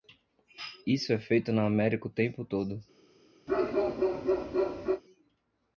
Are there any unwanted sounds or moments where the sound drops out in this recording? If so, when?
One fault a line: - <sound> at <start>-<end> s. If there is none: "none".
- bark at 3.5-5.0 s